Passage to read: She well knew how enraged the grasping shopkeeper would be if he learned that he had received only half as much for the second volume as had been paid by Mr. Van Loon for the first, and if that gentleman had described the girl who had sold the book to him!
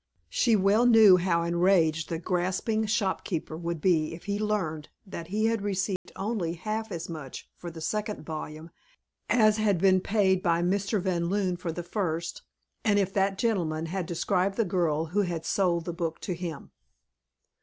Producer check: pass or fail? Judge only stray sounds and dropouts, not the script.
fail